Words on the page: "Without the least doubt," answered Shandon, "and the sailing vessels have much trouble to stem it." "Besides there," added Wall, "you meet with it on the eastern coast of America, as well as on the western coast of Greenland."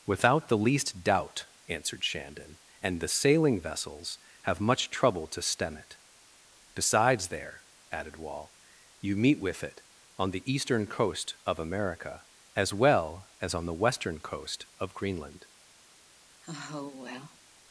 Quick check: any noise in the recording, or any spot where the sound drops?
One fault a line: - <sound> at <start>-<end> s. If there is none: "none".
- sigh at 16.4-17.4 s